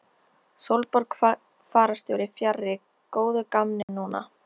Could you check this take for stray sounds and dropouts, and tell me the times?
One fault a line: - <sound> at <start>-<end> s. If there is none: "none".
- dropout at 3.8-3.9 s